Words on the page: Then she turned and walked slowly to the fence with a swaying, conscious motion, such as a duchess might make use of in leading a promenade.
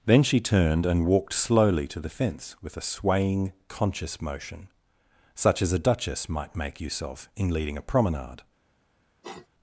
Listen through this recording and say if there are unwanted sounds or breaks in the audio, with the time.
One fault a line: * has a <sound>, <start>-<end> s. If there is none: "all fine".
* has a sniff, 9.2-9.5 s